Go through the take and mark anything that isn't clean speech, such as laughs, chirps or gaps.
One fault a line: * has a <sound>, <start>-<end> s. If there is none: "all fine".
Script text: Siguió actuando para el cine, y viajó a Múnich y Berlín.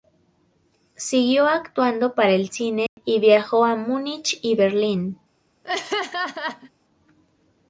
* has a dropout, 2.9-3.0 s
* has a laugh, 5.6-6.7 s